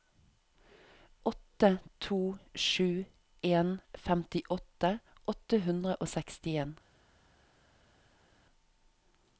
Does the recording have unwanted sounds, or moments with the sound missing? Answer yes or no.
no